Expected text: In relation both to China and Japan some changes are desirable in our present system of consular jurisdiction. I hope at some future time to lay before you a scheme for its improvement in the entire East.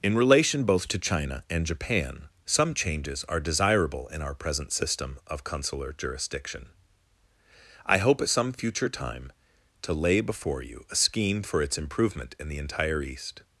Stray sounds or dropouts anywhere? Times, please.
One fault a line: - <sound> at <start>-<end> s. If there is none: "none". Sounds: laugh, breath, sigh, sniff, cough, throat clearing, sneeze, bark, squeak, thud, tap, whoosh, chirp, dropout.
none